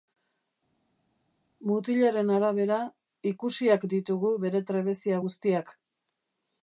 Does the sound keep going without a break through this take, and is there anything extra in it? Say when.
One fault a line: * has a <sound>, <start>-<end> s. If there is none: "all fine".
all fine